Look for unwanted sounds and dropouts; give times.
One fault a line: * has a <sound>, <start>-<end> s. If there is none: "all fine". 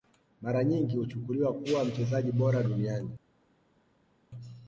all fine